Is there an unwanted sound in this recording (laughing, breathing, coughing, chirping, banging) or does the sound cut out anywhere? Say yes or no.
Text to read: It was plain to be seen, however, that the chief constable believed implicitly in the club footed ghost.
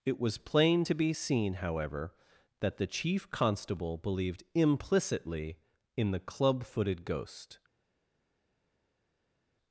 no